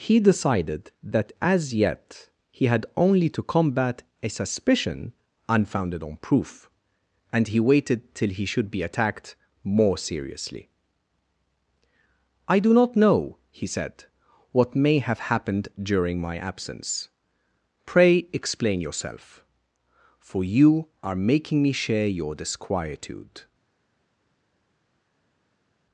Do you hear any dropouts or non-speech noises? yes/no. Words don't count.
no